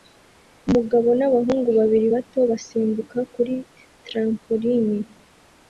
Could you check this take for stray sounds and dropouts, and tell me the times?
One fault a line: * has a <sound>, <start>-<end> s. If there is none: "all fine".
all fine